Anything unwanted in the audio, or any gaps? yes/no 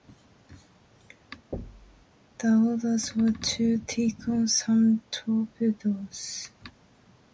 yes